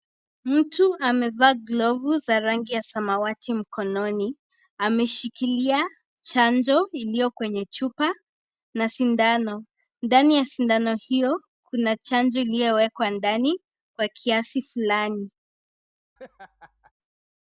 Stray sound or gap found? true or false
true